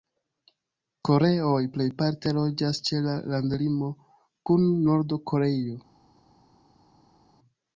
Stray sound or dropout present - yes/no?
no